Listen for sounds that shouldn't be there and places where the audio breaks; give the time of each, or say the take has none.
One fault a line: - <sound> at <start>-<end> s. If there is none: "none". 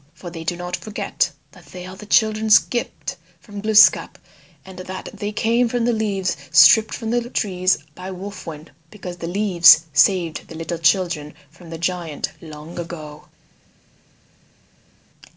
none